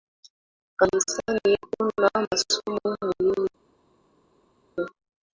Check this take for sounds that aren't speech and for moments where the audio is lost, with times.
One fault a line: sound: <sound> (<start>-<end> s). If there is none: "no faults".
no faults